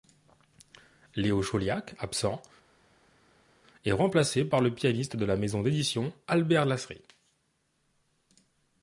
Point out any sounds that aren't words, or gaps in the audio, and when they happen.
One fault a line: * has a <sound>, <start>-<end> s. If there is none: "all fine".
all fine